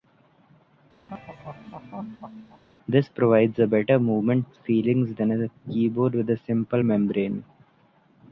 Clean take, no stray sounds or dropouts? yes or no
no